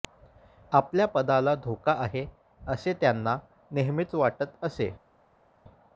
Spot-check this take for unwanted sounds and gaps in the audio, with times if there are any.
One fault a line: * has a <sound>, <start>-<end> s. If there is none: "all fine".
all fine